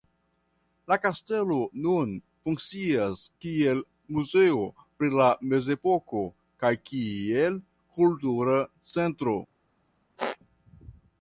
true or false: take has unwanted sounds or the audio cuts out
true